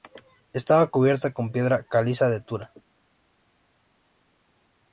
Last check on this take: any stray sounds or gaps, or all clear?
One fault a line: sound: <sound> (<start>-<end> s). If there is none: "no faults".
no faults